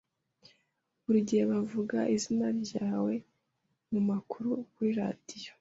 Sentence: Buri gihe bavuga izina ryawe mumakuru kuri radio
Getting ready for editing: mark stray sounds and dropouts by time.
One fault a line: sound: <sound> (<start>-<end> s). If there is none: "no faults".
no faults